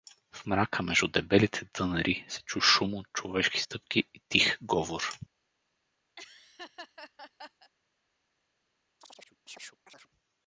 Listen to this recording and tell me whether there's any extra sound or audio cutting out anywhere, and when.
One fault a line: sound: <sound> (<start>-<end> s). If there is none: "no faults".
sound: laugh (6.2-7.7 s)
sound: chirp (9.0-10.1 s)